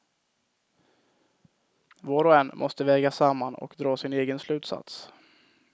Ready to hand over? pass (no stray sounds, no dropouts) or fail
pass